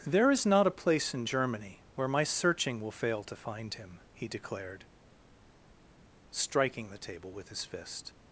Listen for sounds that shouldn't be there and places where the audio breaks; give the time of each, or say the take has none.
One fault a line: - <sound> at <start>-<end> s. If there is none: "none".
none